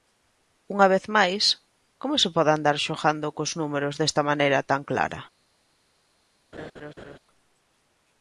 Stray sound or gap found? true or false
true